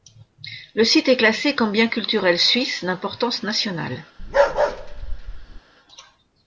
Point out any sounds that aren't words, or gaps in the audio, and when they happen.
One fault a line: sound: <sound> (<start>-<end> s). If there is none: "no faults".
sound: bark (4.2-5.6 s)